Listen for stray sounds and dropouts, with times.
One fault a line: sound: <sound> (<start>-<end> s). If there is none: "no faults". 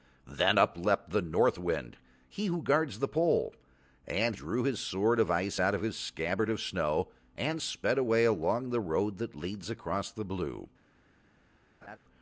sound: laugh (11.8-12.0 s)